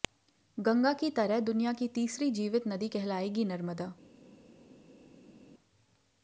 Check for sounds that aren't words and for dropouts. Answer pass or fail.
pass